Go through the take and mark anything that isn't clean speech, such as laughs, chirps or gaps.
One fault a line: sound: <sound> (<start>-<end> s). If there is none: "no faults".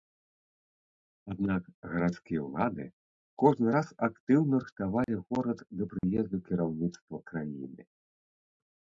sound: dropout (5.0-5.1 s)
sound: dropout (6.0-6.0 s)